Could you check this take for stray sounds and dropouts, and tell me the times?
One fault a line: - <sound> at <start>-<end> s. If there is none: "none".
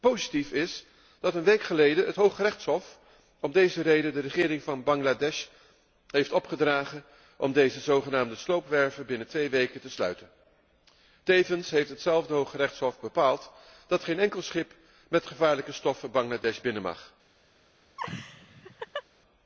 - laugh at 18.0-19.0 s